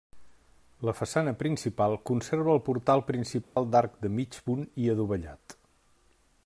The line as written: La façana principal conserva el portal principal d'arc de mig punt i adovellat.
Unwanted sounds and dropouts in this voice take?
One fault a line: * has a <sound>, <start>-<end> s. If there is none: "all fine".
* has a dropout, 3.4-3.6 s